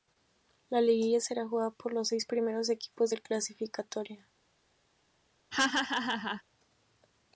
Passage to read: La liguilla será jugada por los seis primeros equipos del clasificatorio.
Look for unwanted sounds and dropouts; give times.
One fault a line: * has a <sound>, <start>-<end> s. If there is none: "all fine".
* has a laugh, 5.5-6.4 s